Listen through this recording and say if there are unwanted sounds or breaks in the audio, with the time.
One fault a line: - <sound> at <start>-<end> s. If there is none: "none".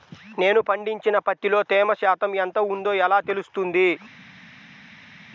none